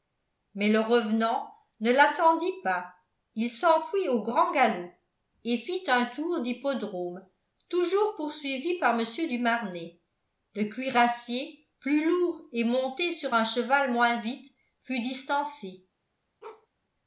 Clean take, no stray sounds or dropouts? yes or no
no